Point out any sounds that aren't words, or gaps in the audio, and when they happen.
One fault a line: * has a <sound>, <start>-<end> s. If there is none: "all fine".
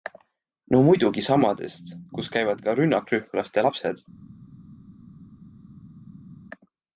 all fine